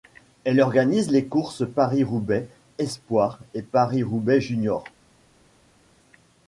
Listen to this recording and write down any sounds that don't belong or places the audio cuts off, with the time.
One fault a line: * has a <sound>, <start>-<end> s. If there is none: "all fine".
all fine